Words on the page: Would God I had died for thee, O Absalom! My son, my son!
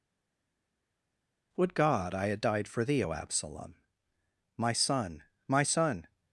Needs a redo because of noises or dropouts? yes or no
no